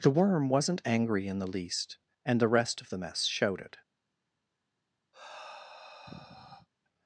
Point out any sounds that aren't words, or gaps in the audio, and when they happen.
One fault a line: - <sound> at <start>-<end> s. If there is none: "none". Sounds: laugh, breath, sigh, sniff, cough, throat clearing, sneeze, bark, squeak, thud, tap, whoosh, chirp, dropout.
- sigh at 5.1-6.7 s